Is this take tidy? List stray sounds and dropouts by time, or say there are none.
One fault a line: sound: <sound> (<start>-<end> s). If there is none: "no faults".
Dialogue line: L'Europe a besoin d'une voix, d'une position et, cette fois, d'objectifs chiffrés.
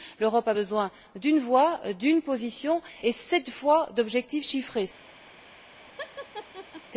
sound: laugh (6.0-6.8 s)